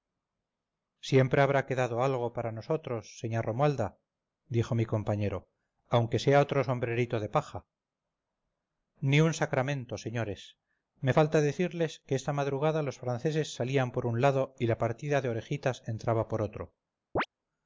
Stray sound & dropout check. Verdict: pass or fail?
fail